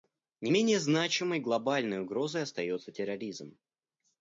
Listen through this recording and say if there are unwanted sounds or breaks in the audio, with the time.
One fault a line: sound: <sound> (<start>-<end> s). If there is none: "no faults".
no faults